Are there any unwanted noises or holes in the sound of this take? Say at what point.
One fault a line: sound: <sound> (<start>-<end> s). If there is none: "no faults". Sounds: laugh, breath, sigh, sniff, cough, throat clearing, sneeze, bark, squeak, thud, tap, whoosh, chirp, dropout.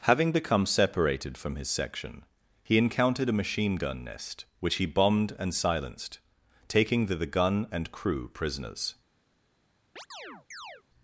sound: chirp (10.0-10.8 s)